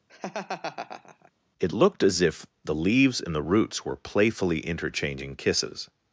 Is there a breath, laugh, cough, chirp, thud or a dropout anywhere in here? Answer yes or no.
yes